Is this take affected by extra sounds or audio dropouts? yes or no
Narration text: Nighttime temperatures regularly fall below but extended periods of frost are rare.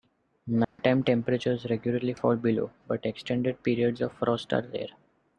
yes